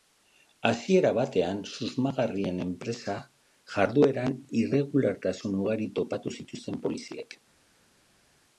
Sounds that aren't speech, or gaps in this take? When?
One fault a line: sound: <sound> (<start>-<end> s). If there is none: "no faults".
no faults